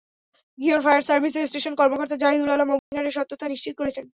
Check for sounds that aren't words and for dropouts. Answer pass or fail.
fail